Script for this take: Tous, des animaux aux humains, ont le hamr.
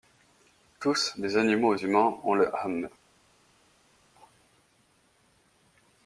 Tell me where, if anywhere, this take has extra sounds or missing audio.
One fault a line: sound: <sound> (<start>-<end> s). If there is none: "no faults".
no faults